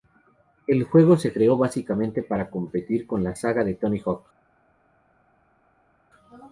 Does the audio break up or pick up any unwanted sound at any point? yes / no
no